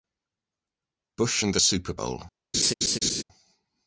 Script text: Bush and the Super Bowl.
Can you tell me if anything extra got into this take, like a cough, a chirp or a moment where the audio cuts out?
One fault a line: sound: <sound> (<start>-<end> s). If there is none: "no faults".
sound: laugh (2.5-3.2 s)